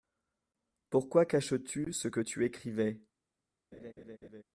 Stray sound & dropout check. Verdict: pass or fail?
fail